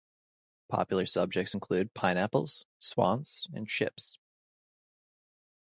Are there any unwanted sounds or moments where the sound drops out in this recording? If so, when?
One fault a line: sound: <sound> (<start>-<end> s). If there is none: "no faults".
no faults